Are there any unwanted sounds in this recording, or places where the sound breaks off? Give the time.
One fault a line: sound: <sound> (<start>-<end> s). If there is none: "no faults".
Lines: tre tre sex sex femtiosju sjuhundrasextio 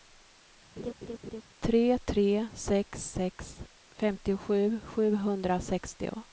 sound: laugh (0.8-1.4 s)